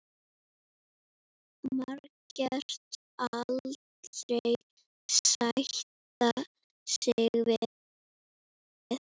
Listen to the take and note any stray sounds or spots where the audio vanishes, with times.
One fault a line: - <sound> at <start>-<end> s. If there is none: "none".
none